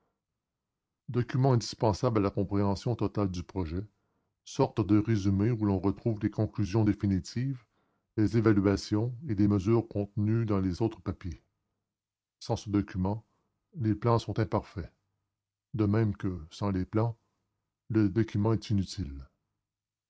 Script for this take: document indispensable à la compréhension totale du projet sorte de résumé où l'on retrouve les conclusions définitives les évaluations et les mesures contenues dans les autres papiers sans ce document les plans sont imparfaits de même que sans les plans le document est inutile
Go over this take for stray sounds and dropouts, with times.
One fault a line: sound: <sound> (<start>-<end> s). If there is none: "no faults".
no faults